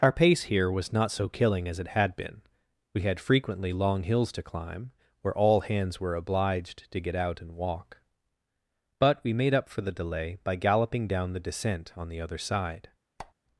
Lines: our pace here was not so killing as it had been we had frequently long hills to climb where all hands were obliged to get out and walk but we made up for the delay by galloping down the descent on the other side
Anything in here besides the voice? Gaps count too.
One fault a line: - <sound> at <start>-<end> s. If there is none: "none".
- squeak at 13.2-13.3 s